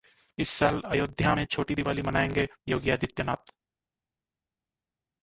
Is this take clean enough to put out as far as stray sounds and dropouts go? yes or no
yes